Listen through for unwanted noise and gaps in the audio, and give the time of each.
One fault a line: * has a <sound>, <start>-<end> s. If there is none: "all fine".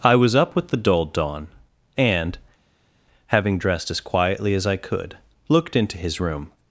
all fine